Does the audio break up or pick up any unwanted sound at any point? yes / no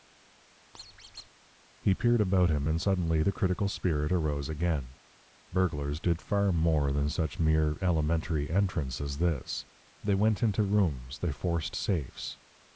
yes